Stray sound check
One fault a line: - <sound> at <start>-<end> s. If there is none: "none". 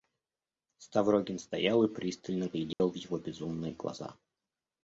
- dropout at 2.7-2.8 s